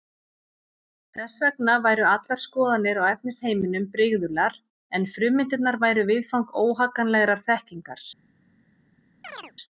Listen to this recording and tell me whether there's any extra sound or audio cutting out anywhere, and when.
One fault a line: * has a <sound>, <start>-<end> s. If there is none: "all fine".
* has a chirp, 9.2-9.5 s